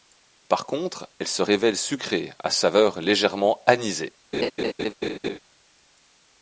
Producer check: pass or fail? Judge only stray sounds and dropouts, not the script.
fail